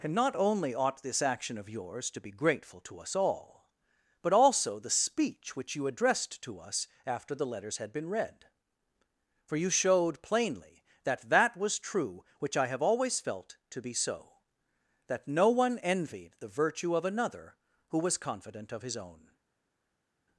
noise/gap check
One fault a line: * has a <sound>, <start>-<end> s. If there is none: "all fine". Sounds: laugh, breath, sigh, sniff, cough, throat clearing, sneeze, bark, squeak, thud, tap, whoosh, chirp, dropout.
all fine